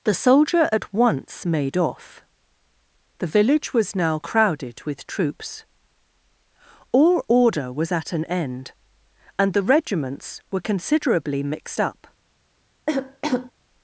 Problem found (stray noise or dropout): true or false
true